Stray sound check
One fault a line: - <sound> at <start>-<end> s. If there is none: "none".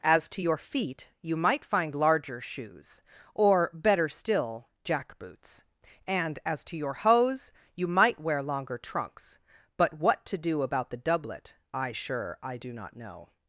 none